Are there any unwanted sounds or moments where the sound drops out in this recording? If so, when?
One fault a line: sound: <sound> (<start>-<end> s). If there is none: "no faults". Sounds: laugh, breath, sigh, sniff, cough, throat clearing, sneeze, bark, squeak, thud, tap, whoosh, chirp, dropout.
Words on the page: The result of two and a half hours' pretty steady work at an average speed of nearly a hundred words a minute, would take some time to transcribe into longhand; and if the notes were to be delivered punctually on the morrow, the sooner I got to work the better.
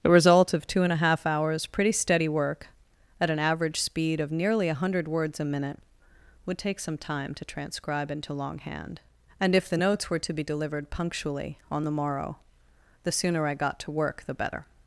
no faults